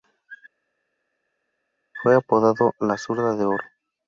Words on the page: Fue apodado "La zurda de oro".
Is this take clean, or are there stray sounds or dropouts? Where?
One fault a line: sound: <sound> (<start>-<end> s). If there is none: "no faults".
no faults